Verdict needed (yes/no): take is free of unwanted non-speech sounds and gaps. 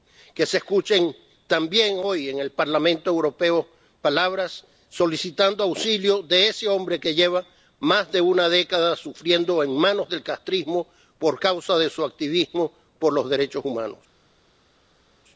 yes